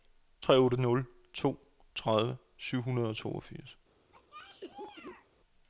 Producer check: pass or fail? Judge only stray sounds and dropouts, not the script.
fail